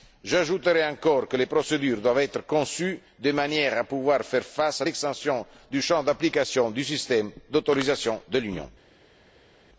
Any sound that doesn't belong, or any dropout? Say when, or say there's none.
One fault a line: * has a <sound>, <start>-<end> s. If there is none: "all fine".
all fine